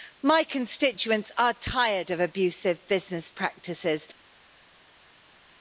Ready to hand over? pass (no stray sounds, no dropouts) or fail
pass